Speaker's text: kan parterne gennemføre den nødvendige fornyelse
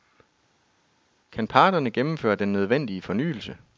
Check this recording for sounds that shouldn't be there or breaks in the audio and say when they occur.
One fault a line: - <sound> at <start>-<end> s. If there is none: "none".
none